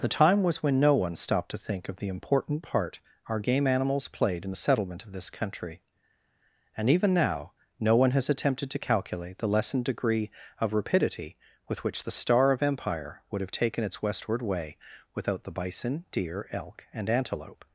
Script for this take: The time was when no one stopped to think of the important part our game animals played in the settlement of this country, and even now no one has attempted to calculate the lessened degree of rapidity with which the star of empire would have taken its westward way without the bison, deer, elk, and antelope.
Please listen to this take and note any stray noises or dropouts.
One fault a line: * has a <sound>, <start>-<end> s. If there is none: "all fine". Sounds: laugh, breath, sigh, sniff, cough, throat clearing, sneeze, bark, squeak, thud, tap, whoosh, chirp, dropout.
all fine